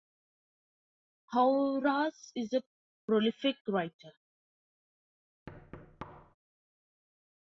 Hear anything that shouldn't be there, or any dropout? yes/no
yes